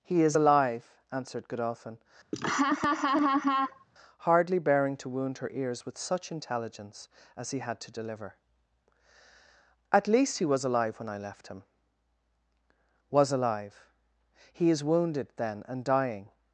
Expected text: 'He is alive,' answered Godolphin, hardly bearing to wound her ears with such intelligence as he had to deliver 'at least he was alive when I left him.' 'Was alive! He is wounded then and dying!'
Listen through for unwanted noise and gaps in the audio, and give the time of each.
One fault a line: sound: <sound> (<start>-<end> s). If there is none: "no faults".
sound: laugh (2.3-3.8 s)